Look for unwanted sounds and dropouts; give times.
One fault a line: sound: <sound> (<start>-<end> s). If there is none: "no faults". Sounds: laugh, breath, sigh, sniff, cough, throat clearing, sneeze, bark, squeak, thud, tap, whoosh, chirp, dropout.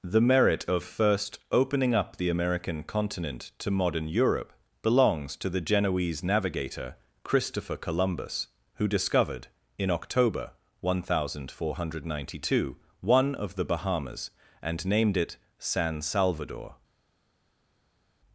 no faults